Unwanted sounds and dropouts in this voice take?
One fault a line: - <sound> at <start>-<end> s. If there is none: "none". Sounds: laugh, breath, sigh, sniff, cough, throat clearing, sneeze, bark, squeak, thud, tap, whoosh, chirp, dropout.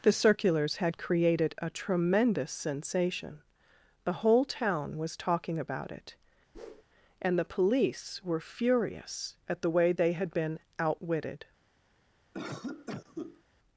- whoosh at 6.5-6.8 s
- cough at 12.3-13.4 s